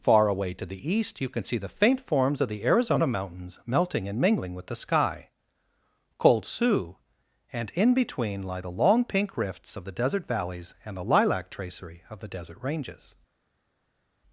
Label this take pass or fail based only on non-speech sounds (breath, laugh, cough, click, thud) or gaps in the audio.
pass